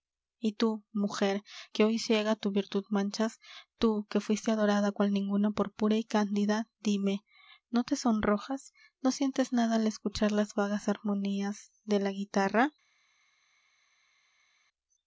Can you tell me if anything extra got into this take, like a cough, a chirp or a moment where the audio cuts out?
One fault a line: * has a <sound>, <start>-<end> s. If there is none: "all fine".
all fine